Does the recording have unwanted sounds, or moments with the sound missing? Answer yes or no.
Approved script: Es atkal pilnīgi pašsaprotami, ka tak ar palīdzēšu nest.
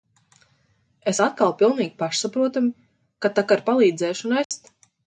yes